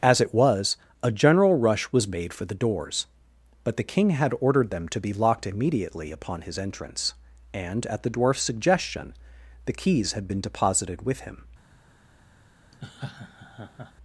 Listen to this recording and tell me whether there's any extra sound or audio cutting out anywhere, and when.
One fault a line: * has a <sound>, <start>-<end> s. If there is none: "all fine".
* has a laugh, 12.7-13.9 s